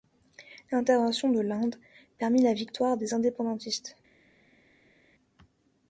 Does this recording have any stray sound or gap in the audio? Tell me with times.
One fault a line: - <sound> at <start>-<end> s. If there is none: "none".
none